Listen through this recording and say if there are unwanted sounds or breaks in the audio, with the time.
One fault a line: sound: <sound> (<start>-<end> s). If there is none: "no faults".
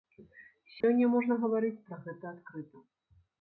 sound: dropout (0.8-0.8 s)